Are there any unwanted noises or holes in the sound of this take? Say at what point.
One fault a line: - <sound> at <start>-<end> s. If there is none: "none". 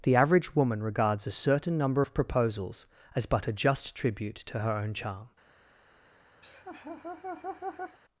- laugh at 6.4-8.0 s